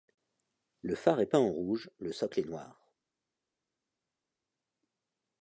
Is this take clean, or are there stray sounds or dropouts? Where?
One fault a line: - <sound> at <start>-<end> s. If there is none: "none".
none